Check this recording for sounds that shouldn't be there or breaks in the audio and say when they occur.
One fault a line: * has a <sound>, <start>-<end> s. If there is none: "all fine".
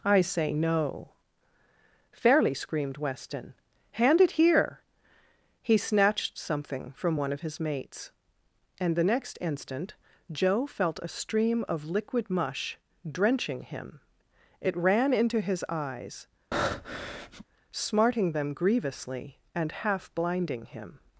* has a breath, 16.5-17.4 s